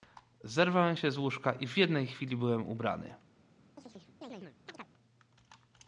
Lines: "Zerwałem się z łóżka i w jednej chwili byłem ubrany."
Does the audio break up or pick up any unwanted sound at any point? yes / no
yes